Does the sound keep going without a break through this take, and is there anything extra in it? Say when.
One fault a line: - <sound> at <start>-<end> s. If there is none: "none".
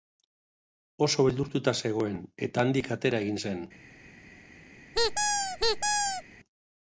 - squeak at 4.9-6.2 s